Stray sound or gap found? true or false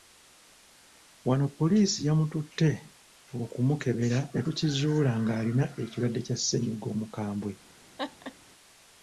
true